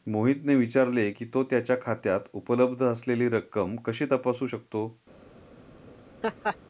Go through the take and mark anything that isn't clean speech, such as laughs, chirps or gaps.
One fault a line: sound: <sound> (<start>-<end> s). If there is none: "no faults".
sound: laugh (6.2-6.6 s)